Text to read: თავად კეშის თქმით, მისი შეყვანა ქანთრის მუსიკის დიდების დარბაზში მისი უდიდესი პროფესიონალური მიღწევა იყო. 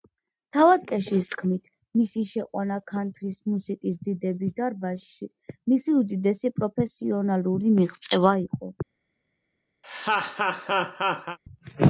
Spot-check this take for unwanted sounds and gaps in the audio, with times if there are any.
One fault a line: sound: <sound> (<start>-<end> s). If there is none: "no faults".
sound: laugh (9.8-11.4 s)